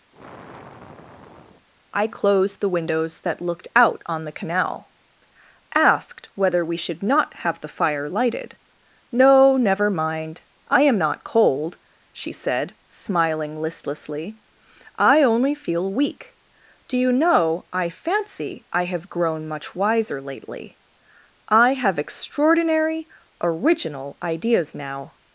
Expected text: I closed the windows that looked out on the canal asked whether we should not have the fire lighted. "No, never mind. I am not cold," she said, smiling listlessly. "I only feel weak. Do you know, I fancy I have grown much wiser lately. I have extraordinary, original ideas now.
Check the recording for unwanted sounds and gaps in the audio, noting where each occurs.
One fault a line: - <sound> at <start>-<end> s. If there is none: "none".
- sigh at 0.1-1.7 s